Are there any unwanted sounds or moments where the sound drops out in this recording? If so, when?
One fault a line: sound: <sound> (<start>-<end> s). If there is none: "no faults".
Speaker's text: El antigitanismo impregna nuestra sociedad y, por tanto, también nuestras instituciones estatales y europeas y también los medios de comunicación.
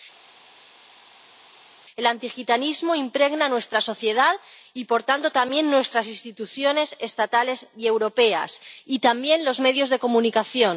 no faults